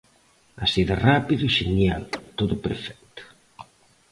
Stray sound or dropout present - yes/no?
yes